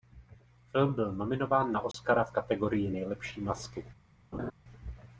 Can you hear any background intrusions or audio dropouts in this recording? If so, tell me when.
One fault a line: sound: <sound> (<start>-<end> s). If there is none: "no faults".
sound: dropout (1.9-1.9 s)
sound: laugh (4.3-4.5 s)